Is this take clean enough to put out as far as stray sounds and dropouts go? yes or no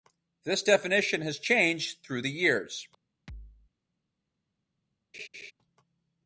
no